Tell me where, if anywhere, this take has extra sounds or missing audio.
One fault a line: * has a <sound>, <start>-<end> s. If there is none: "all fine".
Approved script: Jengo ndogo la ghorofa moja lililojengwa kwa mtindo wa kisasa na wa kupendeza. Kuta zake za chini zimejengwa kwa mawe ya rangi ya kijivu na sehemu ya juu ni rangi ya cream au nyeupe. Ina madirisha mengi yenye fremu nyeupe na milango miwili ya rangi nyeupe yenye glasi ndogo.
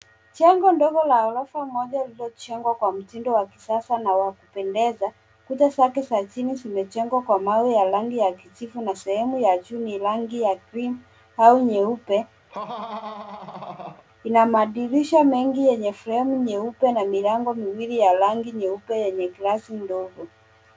* has a laugh, 12.5-14.0 s